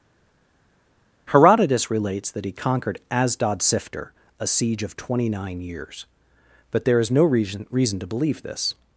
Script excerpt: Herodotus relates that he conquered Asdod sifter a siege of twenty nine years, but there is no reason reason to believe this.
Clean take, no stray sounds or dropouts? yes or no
yes